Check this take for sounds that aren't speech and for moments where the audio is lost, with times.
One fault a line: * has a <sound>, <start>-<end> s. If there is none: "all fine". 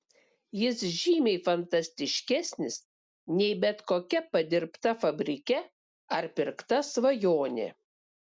all fine